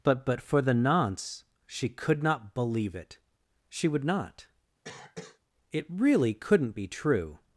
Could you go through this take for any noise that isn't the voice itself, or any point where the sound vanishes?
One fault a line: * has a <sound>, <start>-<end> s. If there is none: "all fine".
* has a cough, 4.8-5.4 s